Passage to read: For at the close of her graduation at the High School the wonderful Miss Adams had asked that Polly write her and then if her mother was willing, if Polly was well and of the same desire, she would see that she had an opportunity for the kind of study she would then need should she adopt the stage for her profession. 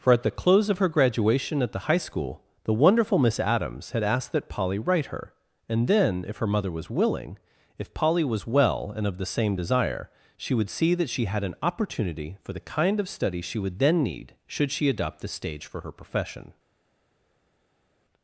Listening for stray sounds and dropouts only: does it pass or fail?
pass